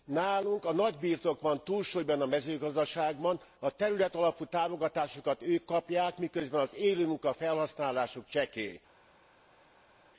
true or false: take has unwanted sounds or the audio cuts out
false